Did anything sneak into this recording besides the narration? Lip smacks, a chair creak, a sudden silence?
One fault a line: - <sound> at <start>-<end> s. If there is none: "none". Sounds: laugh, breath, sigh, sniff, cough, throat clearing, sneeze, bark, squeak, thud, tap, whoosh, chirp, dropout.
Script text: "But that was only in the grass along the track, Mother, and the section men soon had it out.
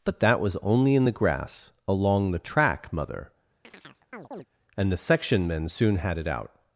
- chirp at 3.6-4.5 s